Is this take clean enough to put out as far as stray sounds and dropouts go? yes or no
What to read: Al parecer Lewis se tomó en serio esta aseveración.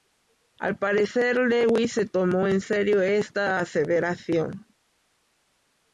yes